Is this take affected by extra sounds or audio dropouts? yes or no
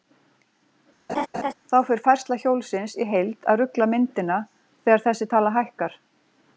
yes